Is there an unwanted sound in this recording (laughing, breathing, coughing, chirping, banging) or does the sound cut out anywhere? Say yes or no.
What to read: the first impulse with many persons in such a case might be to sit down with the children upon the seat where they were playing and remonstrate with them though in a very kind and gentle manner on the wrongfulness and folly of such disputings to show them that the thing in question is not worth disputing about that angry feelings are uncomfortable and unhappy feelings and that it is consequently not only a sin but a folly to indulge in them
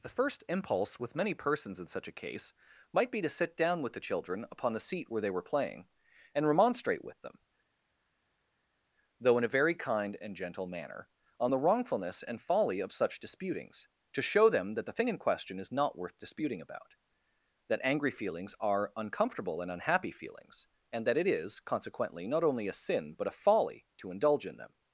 no